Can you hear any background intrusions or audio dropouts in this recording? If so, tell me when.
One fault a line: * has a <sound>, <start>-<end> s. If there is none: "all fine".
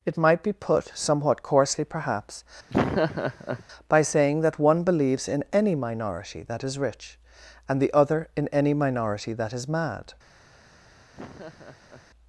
* has a laugh, 2.7-3.6 s
* has a laugh, 11.1-12.1 s